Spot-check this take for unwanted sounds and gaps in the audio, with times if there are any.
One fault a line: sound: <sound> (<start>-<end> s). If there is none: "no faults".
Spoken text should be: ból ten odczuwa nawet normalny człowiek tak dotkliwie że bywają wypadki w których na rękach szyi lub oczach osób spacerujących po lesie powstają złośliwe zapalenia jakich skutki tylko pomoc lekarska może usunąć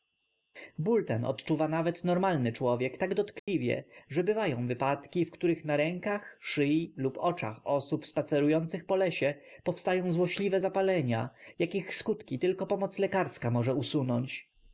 sound: dropout (3.4-3.5 s)